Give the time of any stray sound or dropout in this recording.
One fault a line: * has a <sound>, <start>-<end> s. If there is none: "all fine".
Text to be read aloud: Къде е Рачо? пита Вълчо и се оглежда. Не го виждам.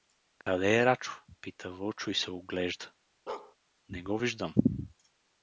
* has a dropout, 0.4-0.5 s
* has a bark, 3.3-3.6 s